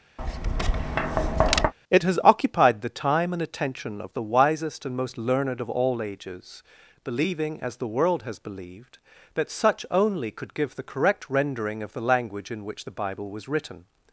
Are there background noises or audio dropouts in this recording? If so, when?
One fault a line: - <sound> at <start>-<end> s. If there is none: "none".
- tap at 0.2-1.7 s